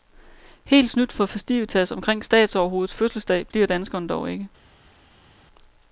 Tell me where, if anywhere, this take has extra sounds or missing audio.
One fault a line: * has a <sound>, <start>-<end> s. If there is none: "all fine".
all fine